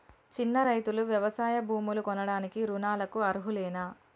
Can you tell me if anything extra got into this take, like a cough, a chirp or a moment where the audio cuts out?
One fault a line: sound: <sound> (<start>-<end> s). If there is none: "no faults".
no faults